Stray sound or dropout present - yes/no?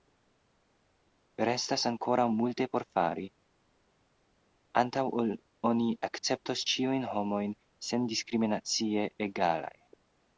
no